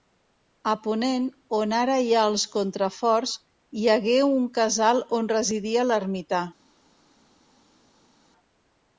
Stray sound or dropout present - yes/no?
no